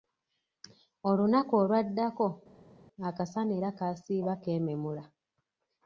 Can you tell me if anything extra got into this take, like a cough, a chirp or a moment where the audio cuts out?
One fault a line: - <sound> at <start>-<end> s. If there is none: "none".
none